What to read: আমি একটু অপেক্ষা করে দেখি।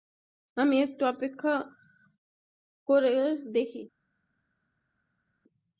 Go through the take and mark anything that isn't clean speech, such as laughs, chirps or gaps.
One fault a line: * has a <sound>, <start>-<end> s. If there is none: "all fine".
all fine